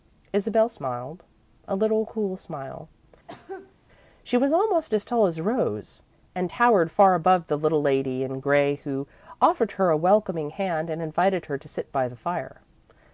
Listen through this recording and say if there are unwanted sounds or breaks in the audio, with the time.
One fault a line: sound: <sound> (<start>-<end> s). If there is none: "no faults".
sound: cough (3.3-3.8 s)